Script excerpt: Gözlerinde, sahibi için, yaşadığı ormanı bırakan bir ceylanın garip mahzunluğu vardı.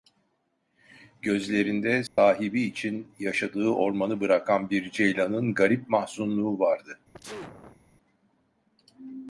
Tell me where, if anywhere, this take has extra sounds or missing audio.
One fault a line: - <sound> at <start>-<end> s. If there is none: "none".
- dropout at 2.1-2.2 s
- sneeze at 7.1-7.8 s